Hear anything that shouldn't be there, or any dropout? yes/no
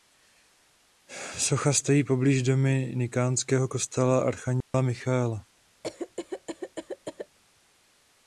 yes